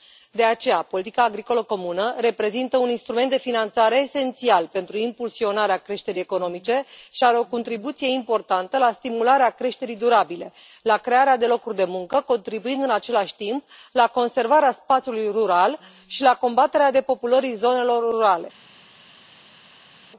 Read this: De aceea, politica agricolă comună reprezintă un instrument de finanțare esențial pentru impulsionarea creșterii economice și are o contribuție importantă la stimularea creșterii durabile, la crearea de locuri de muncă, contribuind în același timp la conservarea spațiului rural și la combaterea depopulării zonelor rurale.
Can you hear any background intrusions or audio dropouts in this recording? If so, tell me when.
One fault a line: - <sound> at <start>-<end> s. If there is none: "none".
none